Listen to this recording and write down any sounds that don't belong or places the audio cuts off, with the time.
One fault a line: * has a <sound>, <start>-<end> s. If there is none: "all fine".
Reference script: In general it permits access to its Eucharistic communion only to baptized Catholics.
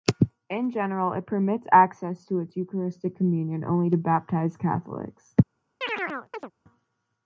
* has a chirp, 5.8-6.5 s